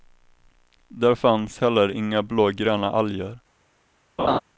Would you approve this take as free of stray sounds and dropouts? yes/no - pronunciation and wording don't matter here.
no